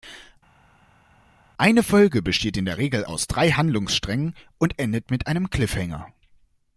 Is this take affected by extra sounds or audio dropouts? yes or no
no